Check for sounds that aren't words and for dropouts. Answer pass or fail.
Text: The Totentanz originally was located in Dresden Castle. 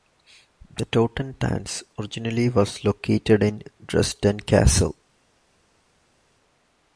pass